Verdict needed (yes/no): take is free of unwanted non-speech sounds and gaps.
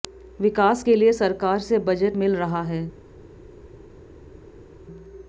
yes